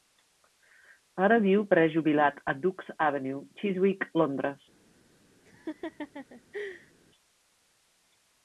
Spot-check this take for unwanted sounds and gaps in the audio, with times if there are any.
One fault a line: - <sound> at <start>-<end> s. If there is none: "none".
- laugh at 5.4-6.9 s